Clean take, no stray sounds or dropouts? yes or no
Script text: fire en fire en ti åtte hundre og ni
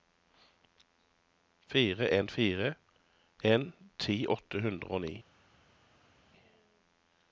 yes